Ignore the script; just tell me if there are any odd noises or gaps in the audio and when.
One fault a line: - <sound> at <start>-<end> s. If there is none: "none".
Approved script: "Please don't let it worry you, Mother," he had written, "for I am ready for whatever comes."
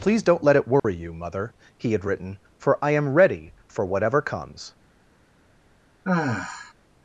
- dropout at 0.8-0.8 s
- sigh at 6.0-6.7 s